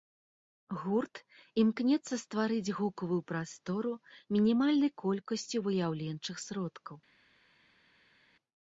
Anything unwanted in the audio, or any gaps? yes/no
no